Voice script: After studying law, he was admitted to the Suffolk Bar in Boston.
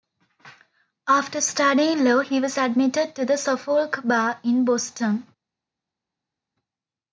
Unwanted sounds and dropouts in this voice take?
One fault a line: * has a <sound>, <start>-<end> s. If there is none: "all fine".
all fine